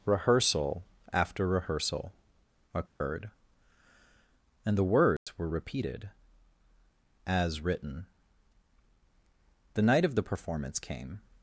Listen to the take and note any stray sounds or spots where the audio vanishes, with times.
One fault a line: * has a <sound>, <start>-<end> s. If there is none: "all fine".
* has a dropout, 2.9-3.0 s
* has a dropout, 5.2-5.3 s